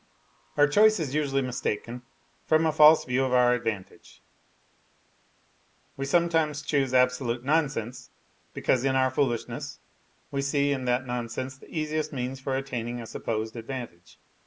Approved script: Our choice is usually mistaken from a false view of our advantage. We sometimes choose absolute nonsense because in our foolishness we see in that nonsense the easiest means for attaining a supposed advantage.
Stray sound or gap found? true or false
false